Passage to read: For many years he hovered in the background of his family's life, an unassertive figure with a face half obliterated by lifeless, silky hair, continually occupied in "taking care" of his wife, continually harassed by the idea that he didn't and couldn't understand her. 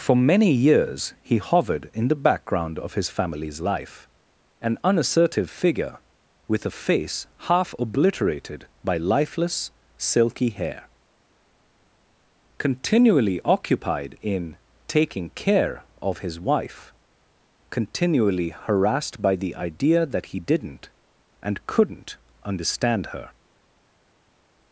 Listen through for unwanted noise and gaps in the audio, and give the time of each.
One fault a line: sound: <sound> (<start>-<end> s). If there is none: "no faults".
no faults